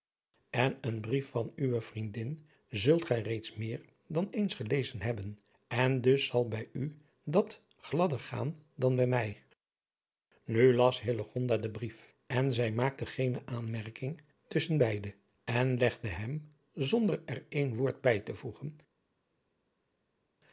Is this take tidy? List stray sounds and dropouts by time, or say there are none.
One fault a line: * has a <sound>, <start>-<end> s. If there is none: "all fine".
all fine